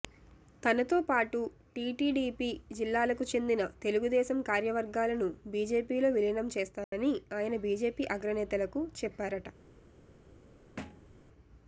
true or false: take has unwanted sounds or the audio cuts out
true